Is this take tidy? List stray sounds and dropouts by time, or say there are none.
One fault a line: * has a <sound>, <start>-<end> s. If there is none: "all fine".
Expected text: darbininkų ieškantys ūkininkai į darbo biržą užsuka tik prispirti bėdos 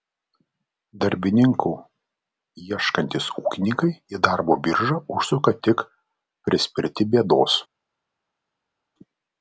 all fine